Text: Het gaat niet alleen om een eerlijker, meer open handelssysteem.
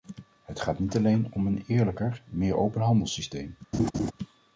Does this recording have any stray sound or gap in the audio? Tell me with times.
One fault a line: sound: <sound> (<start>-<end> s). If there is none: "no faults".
sound: laugh (3.7-4.1 s)